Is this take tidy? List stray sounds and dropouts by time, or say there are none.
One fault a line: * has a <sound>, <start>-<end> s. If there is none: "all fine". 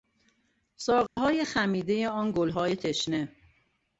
* has a dropout, 1.1-1.2 s